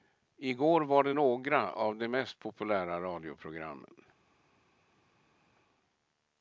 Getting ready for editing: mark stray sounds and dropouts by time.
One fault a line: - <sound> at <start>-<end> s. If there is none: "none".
none